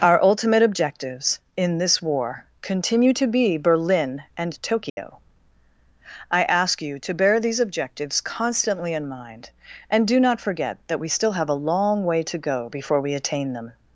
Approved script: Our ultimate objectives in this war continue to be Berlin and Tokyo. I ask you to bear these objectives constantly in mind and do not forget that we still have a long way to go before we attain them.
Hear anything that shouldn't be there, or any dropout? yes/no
yes